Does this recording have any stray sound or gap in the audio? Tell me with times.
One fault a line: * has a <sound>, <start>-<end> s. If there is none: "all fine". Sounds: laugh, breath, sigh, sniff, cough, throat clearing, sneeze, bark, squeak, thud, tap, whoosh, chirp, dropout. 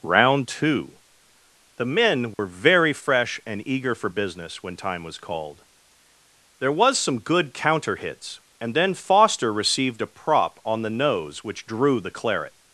* has a dropout, 2.3-2.4 s